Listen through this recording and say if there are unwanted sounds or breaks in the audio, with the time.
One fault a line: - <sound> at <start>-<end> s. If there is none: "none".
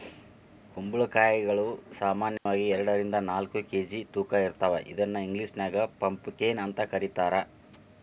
- dropout at 2.4-2.5 s